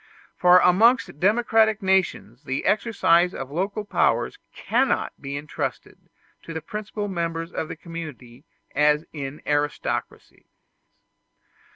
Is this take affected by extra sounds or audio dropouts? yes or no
no